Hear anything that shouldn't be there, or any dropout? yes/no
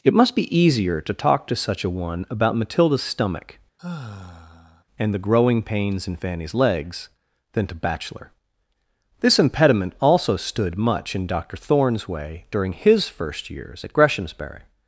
yes